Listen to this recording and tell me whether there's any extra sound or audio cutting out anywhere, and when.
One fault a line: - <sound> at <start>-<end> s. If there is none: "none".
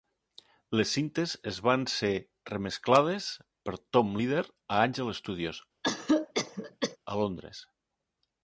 - cough at 5.8-7.0 s